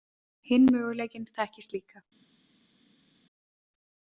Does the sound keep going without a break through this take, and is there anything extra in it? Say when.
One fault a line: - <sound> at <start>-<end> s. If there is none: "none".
none